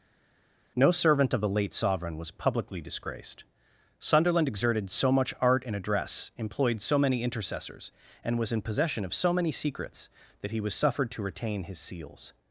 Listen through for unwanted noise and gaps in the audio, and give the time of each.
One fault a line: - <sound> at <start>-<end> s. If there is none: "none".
none